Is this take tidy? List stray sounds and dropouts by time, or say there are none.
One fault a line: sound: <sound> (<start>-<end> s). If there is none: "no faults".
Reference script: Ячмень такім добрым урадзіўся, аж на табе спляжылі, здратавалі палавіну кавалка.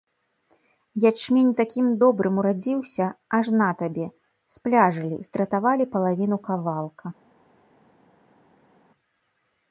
no faults